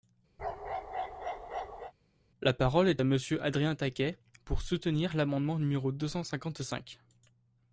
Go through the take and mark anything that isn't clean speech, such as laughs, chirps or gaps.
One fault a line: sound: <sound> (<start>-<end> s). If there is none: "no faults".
sound: bark (0.4-1.9 s)